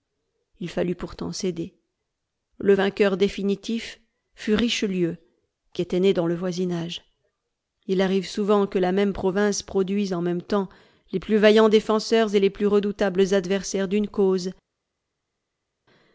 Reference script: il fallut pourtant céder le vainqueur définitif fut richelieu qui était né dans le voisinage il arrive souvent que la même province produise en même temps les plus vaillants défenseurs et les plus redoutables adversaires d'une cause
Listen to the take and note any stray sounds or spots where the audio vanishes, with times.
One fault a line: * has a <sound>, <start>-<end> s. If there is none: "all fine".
all fine